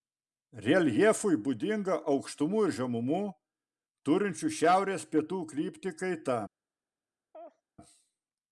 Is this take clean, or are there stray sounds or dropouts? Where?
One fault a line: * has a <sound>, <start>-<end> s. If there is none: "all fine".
* has a laugh, 7.3-7.6 s